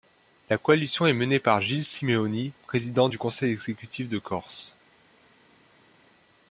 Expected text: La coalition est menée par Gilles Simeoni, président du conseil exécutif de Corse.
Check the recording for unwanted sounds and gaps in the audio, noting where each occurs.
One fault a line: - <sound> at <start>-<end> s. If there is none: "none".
none